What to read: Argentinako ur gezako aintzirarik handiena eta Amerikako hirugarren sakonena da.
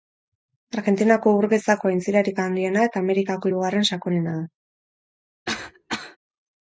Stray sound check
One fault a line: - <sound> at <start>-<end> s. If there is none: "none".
- cough at 5.5-6.2 s